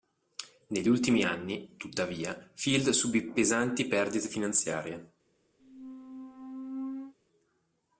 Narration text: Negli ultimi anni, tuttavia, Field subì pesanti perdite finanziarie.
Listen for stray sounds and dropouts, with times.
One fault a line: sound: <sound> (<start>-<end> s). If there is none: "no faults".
sound: squeak (5.6-7.1 s)